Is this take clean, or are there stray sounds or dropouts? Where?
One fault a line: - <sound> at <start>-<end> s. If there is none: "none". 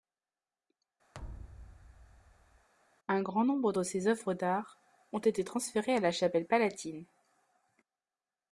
- thud at 1.1-2.7 s